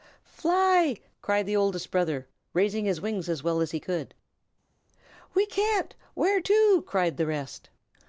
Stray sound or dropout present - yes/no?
no